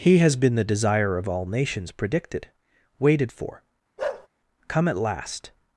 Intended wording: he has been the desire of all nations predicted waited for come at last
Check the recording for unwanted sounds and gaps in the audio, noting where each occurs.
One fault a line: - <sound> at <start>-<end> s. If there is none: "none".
- bark at 4.0-4.3 s